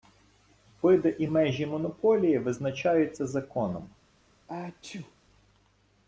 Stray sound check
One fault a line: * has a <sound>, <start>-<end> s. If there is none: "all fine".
* has a sneeze, 4.5-5.2 s